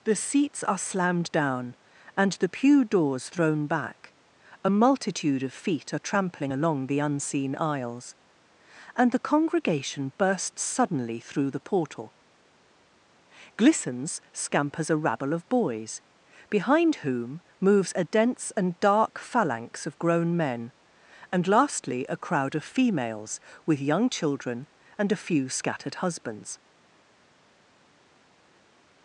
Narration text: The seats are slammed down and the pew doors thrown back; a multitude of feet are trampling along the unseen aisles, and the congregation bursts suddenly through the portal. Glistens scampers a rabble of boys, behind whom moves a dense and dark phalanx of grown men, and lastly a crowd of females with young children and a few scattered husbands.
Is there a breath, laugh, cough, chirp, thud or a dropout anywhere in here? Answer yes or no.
no